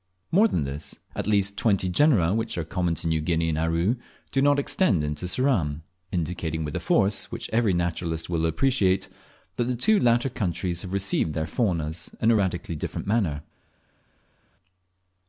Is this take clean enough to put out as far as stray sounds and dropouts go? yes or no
yes